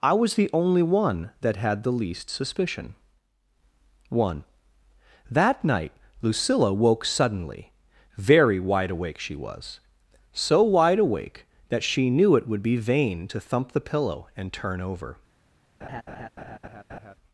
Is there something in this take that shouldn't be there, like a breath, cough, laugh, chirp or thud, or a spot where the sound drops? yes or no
yes